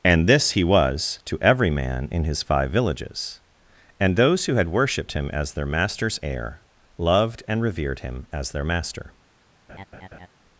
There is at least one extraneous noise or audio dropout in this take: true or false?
true